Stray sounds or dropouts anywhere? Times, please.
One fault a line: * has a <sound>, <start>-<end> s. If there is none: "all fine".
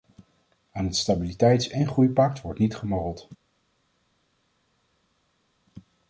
all fine